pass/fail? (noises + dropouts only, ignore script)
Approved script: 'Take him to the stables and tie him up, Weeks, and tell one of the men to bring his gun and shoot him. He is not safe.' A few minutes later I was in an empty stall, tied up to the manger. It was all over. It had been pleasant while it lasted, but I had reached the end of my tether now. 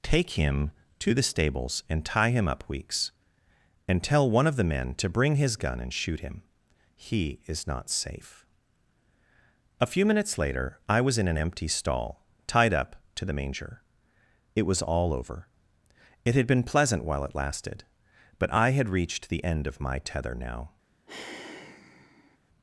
fail